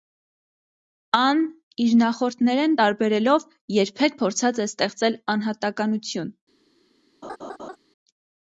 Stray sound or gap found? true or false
true